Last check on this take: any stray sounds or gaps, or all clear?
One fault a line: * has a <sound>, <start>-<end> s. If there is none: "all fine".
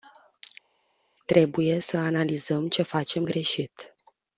all fine